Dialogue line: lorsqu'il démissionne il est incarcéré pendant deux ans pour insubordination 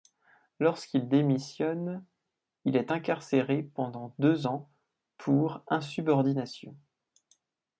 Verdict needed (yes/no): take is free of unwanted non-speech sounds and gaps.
yes